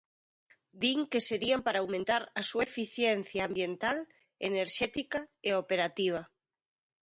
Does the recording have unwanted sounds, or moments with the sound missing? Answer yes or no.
no